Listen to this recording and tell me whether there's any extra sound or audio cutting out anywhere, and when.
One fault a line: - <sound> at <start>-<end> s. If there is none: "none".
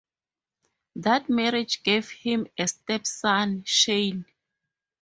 none